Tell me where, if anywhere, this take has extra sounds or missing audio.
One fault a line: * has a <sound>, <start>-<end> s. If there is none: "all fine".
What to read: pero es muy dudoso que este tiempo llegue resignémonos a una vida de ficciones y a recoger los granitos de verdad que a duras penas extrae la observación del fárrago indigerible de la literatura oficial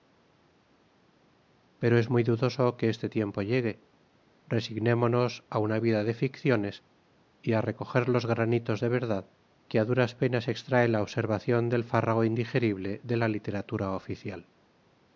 all fine